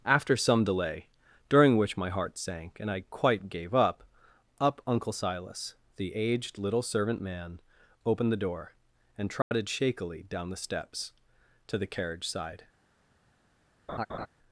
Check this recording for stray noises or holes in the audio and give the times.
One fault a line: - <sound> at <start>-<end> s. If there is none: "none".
- dropout at 9.4-9.5 s
- laugh at 13.9-14.3 s